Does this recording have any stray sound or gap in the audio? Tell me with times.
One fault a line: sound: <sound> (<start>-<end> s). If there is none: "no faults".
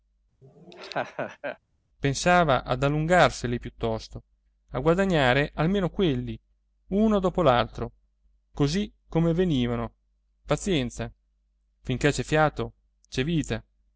sound: laugh (0.4-1.6 s)